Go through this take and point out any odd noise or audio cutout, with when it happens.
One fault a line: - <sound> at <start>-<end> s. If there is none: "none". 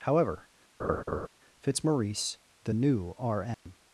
- laugh at 0.8-1.3 s
- dropout at 3.5-3.7 s